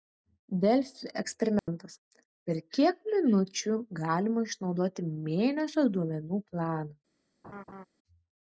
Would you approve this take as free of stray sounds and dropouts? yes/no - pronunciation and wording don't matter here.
no